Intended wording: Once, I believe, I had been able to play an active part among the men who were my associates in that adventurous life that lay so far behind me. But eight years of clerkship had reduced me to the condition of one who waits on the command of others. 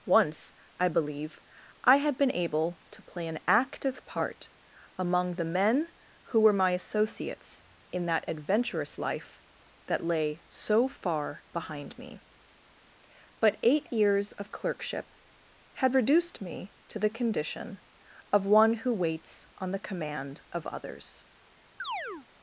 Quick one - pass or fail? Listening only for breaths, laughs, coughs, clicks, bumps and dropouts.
fail